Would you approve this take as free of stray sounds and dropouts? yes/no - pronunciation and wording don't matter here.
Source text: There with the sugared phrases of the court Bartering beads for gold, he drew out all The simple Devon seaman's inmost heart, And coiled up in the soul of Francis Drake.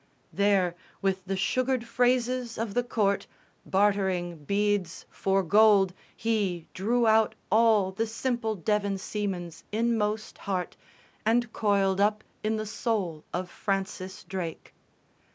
yes